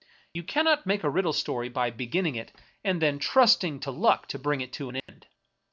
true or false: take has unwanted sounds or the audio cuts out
true